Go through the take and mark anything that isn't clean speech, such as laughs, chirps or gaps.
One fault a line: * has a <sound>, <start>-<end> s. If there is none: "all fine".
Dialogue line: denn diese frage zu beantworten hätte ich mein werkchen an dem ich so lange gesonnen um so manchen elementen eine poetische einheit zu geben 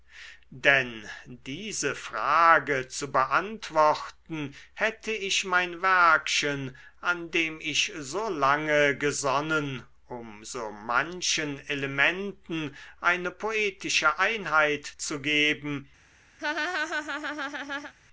* has a laugh, 16.4-17.9 s